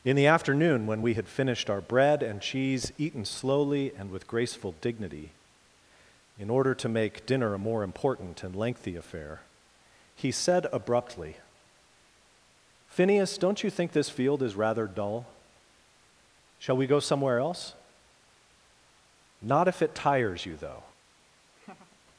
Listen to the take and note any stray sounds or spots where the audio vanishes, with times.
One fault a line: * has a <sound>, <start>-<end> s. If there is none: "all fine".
* has a laugh, 21.5-22.0 s